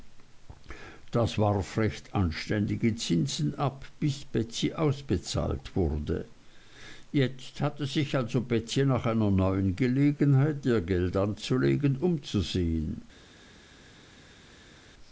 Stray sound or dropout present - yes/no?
no